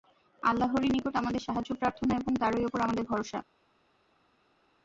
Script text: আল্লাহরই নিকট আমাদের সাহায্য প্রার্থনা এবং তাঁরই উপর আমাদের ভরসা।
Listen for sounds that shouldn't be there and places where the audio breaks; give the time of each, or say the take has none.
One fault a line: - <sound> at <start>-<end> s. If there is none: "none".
none